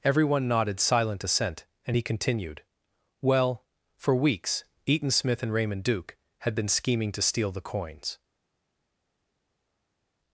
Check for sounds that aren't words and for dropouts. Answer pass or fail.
pass